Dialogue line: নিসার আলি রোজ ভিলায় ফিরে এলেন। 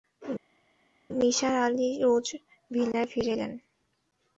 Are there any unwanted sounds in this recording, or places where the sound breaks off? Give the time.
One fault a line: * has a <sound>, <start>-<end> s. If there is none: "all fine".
all fine